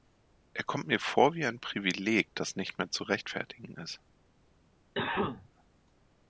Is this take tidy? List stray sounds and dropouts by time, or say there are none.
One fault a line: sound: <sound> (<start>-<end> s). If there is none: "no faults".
sound: cough (4.9-5.5 s)